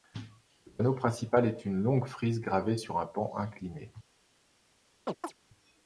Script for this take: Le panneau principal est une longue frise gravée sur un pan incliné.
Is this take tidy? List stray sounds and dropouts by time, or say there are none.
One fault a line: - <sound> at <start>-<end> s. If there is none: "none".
- chirp at 5.1-5.3 s